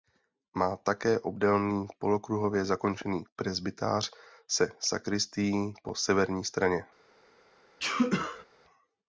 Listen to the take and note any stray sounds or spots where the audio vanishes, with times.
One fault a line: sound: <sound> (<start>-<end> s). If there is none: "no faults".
sound: sneeze (7.8-8.5 s)